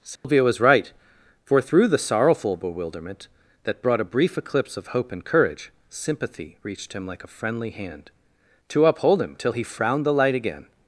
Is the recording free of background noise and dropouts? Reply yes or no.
no